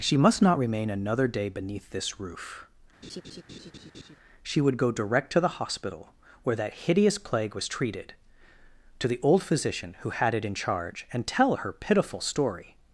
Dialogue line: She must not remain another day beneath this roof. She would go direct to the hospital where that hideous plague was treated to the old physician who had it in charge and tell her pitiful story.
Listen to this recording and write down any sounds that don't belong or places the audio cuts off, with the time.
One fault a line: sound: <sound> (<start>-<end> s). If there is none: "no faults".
sound: laugh (3.0-4.2 s)